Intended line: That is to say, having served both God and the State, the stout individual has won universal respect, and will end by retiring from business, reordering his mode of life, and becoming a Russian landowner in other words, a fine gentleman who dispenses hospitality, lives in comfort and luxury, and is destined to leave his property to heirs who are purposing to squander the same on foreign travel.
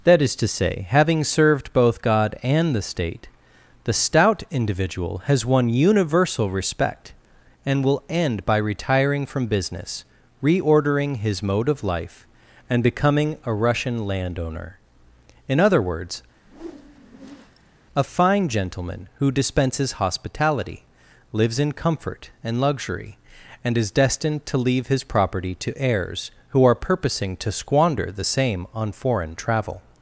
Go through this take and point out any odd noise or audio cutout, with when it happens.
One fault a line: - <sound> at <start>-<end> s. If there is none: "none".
- whoosh at 16.3-17.7 s